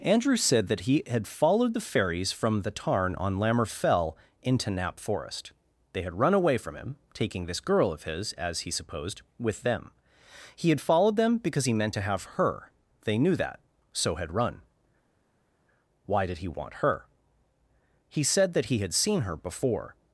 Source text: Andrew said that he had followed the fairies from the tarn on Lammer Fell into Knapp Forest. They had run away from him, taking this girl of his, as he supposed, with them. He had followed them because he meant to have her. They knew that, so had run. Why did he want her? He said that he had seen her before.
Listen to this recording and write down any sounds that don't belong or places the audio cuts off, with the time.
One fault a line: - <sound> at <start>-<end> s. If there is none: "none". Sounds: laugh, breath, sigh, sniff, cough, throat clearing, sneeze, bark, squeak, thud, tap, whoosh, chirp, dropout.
none